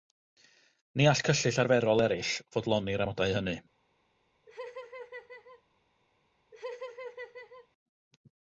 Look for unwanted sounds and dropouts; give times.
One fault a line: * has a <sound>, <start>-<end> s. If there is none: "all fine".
* has a laugh, 4.5-5.6 s
* has a laugh, 6.5-7.7 s